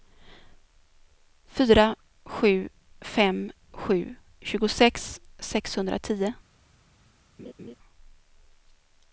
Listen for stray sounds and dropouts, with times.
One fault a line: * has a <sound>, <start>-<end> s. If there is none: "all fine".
* has a laugh, 7.4-7.7 s